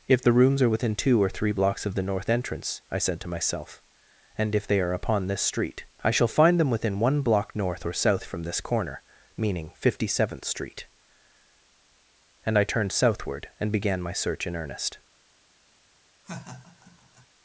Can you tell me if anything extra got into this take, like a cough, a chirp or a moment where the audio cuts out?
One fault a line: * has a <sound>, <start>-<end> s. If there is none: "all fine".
* has a laugh, 16.2-17.3 s